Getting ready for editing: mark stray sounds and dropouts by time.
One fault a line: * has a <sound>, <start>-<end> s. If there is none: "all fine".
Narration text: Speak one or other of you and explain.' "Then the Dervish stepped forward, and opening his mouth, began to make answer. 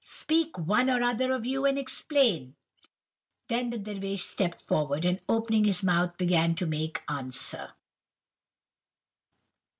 all fine